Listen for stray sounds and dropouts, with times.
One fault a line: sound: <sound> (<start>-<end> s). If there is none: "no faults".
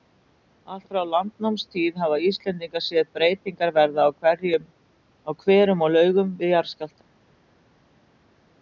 no faults